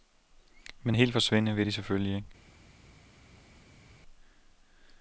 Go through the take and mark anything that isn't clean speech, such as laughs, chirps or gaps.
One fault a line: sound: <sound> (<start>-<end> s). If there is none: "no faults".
no faults